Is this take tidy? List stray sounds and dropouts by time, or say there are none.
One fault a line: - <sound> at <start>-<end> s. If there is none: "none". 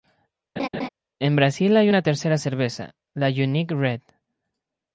- laugh at 0.6-0.9 s